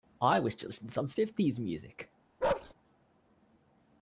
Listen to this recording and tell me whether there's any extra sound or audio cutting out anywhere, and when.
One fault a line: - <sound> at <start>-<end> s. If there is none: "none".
- bark at 2.4-2.7 s